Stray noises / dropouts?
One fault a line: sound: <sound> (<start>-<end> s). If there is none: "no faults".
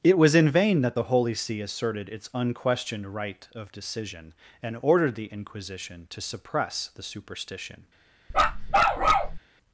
sound: bark (8.3-9.4 s)